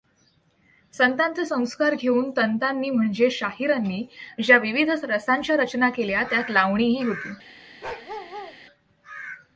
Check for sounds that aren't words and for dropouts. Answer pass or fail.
fail